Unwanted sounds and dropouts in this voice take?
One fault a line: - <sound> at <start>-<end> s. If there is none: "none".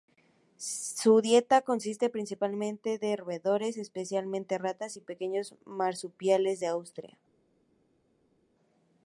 none